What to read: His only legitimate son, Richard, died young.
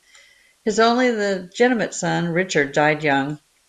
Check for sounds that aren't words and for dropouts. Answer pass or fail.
pass